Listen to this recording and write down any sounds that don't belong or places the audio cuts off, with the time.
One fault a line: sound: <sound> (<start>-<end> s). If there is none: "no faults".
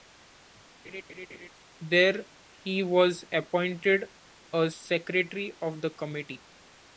sound: laugh (0.8-1.5 s)